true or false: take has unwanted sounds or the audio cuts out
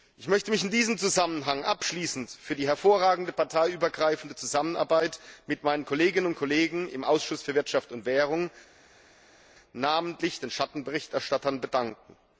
false